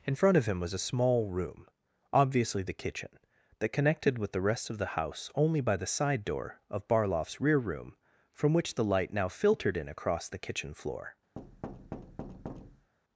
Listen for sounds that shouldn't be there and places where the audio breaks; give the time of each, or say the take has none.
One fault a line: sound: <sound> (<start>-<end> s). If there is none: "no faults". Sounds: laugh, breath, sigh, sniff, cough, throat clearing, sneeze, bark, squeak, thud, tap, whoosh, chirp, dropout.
sound: thud (11.4-12.9 s)